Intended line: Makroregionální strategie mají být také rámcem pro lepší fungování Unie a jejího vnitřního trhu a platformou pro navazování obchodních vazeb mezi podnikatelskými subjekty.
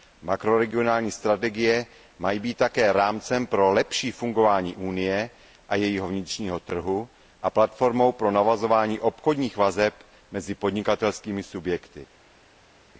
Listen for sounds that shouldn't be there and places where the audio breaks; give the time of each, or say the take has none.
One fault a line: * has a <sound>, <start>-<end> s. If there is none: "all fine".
all fine